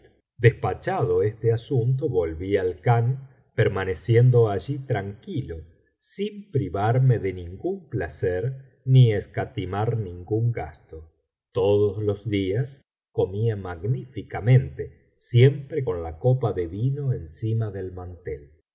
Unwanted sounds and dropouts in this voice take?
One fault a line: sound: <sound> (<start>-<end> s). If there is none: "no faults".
no faults